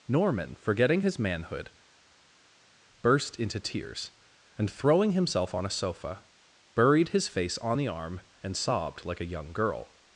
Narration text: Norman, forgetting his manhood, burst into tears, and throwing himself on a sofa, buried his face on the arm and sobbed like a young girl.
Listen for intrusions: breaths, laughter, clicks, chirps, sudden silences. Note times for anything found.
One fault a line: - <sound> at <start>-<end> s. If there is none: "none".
none